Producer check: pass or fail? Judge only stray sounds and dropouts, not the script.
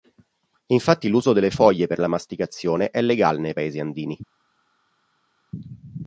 pass